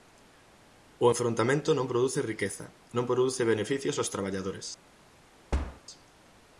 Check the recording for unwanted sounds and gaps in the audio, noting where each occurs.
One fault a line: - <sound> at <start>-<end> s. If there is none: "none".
- thud at 5.5-5.8 s